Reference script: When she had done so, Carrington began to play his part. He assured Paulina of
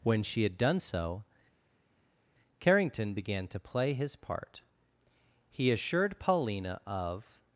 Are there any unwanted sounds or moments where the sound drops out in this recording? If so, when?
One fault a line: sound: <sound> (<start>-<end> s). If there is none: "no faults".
no faults